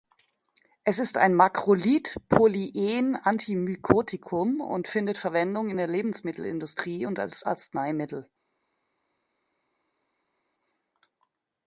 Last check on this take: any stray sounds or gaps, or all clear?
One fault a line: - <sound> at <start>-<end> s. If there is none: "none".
none